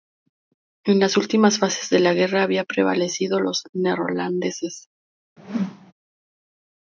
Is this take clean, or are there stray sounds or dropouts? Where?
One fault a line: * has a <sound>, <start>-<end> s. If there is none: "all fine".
* has a whoosh, 5.4-5.9 s